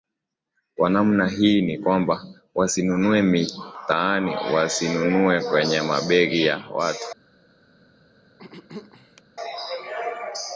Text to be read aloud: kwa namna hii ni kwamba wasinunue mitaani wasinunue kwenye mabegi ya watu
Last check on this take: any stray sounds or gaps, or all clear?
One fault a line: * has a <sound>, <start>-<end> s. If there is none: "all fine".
* has a throat clearing, 8.4-9.2 s